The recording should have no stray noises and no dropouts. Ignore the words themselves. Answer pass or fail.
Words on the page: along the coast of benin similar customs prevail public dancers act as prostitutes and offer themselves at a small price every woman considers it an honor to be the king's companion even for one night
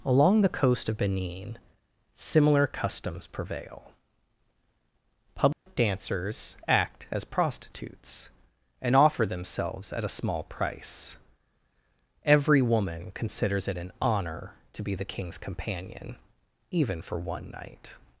fail